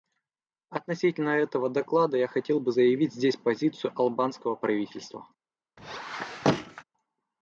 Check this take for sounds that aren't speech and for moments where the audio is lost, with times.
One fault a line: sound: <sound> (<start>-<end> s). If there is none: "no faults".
sound: squeak (5.8-6.8 s)